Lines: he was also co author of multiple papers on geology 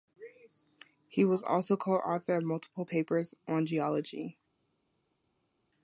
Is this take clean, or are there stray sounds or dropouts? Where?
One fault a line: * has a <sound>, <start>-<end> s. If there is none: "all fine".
all fine